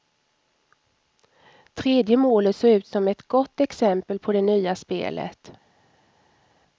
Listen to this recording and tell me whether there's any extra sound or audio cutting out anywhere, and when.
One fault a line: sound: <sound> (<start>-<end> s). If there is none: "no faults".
no faults